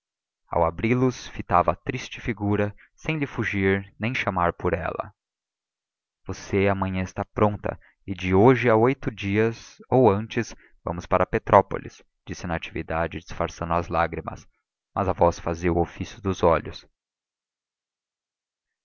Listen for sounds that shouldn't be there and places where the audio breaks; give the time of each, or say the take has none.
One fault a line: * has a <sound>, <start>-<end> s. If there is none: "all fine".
all fine